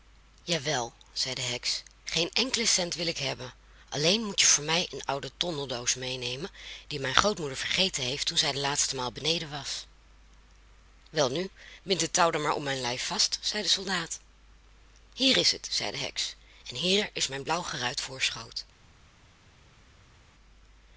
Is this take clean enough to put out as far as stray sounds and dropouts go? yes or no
yes